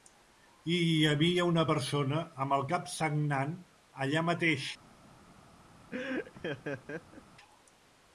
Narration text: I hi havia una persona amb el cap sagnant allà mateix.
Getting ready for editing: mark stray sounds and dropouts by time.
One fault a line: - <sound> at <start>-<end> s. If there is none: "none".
- laugh at 5.9-7.2 s